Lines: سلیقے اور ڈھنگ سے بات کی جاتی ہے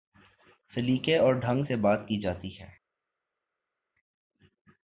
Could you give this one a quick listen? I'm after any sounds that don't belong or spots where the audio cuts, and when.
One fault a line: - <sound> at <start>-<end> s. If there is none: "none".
none